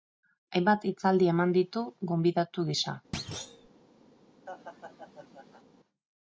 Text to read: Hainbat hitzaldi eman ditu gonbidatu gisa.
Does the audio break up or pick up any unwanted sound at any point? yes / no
yes